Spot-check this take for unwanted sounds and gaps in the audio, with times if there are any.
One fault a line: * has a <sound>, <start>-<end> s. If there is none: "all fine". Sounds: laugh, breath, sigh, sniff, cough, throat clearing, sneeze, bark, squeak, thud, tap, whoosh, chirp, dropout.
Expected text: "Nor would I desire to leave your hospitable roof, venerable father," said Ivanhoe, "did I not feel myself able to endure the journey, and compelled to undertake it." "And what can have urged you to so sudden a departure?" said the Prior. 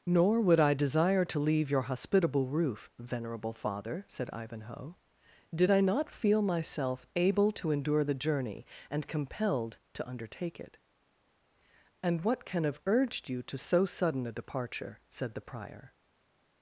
all fine